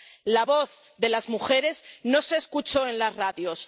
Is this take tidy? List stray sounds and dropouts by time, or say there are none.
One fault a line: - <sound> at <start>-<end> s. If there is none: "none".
none